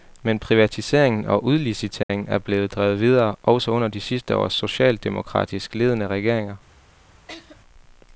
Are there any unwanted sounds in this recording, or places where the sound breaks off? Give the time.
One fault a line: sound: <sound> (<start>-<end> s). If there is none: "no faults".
sound: dropout (2.0-2.1 s)
sound: laugh (7.3-7.6 s)